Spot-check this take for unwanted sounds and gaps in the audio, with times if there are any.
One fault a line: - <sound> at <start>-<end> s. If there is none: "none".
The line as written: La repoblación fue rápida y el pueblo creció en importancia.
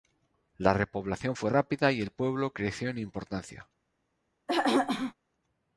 - throat clearing at 4.5-5.1 s